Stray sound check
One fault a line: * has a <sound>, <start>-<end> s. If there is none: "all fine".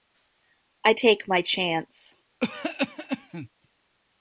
* has a cough, 2.4-3.5 s